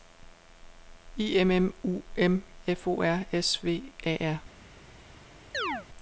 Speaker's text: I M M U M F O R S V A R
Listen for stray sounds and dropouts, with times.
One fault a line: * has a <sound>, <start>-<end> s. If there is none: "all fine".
* has a chirp, 5.5-5.9 s